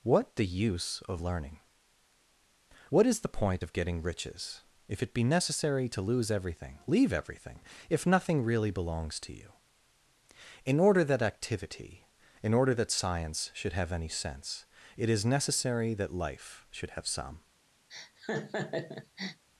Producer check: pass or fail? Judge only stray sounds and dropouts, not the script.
fail